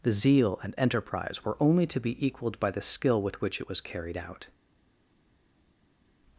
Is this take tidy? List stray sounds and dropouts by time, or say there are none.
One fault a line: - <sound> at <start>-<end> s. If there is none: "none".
none